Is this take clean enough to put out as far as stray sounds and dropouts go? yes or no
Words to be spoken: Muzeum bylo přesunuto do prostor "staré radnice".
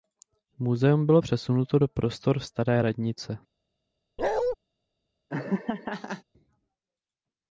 no